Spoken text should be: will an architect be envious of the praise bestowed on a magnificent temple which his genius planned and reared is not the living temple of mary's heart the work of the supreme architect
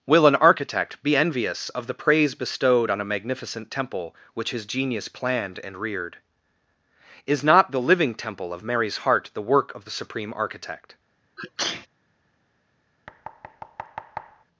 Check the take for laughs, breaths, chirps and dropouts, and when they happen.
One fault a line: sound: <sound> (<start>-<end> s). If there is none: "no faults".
sound: sneeze (11.4-11.9 s)
sound: thud (13.1-14.4 s)